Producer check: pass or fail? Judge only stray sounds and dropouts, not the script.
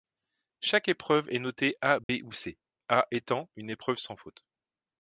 fail